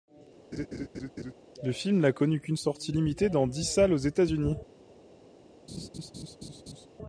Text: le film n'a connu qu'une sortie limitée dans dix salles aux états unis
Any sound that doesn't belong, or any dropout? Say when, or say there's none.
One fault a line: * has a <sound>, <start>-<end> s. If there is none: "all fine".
* has a laugh, 0.5-1.3 s
* has a laugh, 5.7-6.9 s